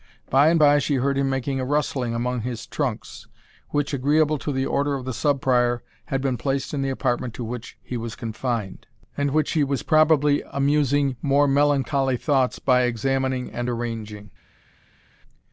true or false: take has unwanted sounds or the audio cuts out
false